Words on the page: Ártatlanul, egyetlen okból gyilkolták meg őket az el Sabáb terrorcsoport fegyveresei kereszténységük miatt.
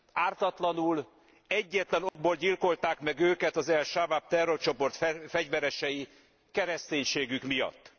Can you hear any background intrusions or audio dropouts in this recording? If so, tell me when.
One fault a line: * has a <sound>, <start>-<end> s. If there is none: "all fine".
* has a dropout, 2.1-2.2 s